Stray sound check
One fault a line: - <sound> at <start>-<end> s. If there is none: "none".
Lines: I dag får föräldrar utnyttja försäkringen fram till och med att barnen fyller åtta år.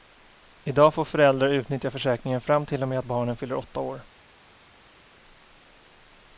none